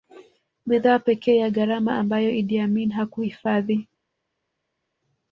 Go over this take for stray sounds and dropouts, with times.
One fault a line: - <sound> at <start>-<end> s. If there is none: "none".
none